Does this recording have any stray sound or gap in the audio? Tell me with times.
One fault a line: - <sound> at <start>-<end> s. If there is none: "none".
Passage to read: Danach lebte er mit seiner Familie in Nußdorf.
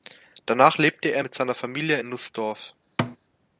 - thud at 3.0-3.2 s